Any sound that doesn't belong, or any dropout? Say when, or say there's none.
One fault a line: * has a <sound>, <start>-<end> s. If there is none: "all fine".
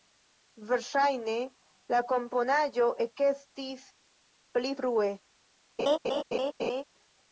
* has a laugh, 5.8-6.8 s